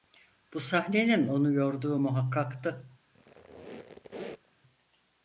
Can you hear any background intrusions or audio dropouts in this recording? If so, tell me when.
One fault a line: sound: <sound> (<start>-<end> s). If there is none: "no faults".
sound: squeak (3.1-4.6 s)